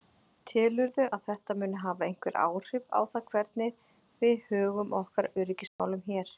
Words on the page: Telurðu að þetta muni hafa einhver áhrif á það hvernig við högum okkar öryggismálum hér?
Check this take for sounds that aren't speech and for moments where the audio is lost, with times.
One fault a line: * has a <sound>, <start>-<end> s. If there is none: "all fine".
* has a dropout, 5.7-5.8 s